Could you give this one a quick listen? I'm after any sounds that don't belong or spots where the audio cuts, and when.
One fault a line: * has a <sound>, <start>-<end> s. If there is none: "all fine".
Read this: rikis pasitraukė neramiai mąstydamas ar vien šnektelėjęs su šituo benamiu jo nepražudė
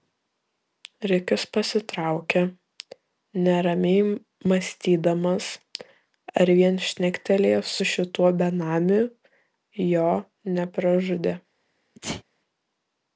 * has a sneeze, 12.0-12.2 s